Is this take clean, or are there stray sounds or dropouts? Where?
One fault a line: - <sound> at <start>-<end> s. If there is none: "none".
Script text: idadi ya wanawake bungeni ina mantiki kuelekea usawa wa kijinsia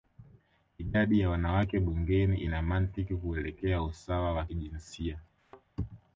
- thud at 5.4-5.7 s